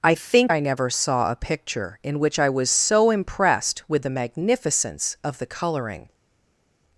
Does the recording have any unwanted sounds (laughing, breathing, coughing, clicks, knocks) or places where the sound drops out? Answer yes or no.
no